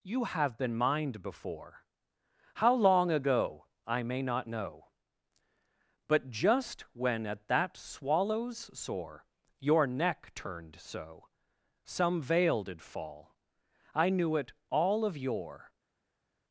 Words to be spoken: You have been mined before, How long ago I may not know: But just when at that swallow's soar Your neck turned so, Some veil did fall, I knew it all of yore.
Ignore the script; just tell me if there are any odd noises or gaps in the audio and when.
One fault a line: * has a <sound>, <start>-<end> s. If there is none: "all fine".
all fine